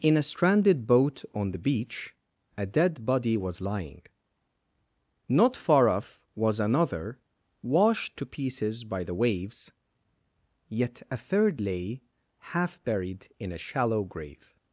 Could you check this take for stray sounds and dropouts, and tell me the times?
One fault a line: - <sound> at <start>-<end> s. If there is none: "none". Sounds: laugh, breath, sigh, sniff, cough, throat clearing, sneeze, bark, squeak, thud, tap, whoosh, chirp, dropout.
none